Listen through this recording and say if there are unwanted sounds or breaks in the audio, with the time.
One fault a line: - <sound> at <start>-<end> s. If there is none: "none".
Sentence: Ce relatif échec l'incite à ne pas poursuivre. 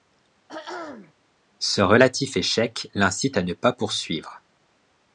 - throat clearing at 0.5-1.1 s